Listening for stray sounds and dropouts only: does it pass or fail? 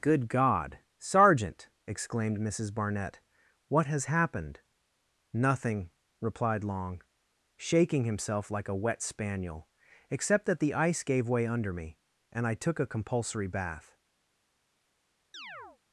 fail